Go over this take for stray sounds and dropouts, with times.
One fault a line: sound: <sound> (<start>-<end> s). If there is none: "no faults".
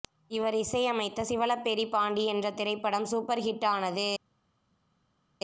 no faults